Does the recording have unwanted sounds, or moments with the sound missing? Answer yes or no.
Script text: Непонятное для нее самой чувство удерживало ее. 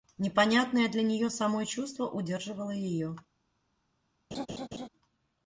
yes